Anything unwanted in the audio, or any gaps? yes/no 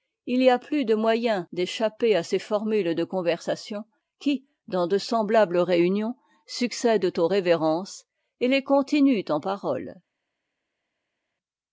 no